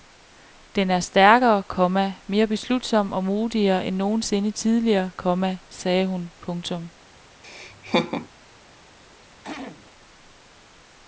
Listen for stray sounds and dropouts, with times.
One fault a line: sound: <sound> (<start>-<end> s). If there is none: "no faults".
sound: laugh (7.4-8.3 s)
sound: throat clearing (9.4-9.9 s)